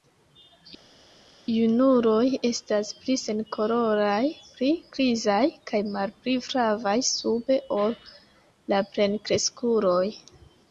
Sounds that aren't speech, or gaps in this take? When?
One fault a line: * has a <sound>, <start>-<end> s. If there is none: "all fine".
all fine